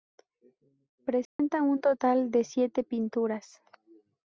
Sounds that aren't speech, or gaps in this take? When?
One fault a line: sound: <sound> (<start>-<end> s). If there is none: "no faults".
sound: dropout (1.2-1.4 s)